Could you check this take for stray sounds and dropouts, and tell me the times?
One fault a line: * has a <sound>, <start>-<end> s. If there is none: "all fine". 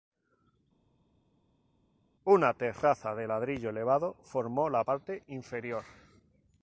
all fine